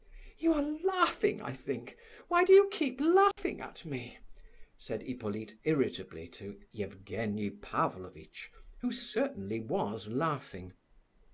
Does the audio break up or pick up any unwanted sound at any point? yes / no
yes